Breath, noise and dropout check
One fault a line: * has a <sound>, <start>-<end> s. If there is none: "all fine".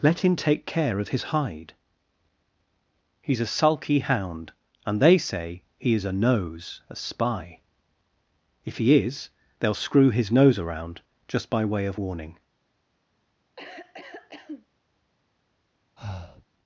* has a cough, 13.6-14.7 s
* has a breath, 16.0-16.5 s